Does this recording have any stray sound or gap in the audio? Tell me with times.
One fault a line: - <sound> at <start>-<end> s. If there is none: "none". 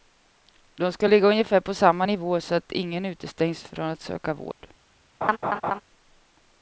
- dropout at 4.5-4.6 s
- laugh at 5.2-5.8 s